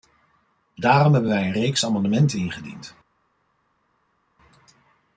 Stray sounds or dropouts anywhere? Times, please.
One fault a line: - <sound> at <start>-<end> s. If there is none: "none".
none